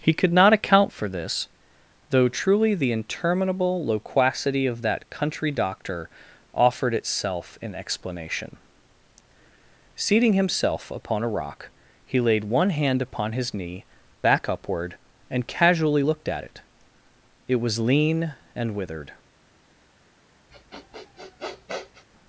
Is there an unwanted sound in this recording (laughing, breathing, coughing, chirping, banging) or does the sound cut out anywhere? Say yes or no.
yes